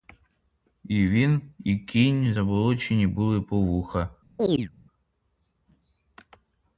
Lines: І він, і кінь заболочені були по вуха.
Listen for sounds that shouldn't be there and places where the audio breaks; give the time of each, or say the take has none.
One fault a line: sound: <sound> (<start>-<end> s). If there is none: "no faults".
sound: chirp (4.4-4.7 s)